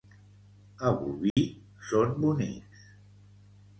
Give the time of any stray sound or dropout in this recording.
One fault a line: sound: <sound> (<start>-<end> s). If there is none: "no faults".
sound: dropout (1.3-1.4 s)